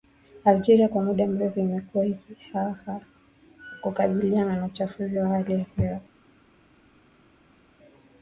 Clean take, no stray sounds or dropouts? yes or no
yes